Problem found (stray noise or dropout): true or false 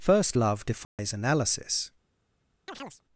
true